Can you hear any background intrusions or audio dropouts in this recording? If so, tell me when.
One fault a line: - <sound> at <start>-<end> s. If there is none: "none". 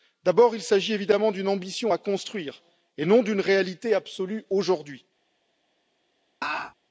- laugh at 6.4-6.7 s